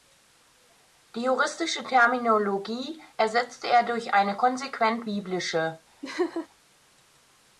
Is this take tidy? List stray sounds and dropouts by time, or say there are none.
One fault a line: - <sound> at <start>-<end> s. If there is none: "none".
- laugh at 6.0-6.5 s